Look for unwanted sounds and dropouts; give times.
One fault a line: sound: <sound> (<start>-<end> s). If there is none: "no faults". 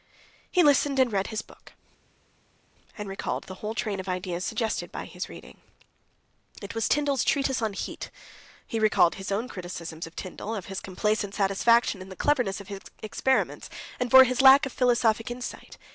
no faults